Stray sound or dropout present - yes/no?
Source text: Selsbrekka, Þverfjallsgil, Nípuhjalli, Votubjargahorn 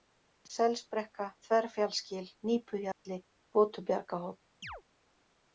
yes